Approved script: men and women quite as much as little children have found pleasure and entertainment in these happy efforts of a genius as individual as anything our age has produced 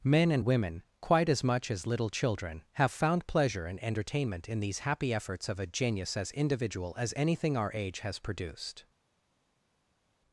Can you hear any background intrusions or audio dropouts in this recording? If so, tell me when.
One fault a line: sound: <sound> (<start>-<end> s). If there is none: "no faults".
no faults